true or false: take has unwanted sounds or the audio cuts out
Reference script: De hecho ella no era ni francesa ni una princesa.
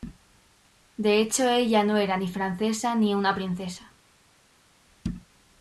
false